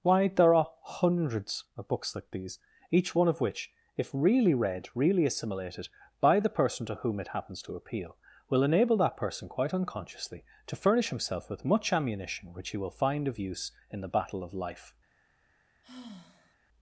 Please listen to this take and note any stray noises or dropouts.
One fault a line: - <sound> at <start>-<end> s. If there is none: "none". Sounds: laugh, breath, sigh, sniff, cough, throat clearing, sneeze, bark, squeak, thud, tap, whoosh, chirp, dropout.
- sigh at 15.8-16.6 s